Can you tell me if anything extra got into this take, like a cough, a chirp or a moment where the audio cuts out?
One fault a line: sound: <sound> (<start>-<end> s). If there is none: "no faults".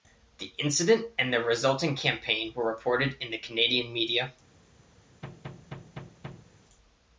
sound: thud (5.2-6.5 s)